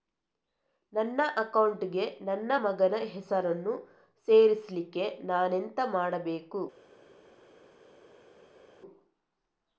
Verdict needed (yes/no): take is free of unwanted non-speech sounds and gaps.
yes